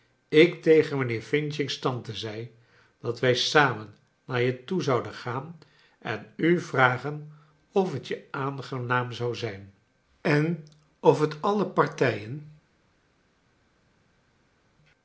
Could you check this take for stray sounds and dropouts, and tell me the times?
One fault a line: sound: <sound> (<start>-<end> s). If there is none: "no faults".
no faults